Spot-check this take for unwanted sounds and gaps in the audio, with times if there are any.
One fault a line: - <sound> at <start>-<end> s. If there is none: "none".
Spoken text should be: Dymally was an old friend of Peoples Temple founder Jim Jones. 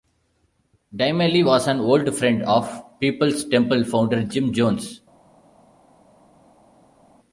none